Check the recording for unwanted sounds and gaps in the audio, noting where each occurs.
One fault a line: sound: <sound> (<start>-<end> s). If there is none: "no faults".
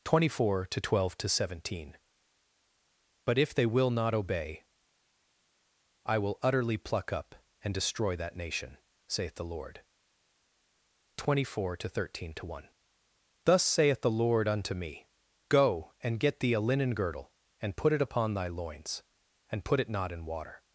no faults